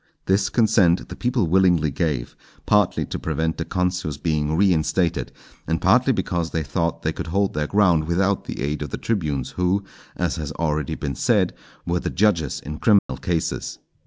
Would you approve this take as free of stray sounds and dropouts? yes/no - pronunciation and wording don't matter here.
no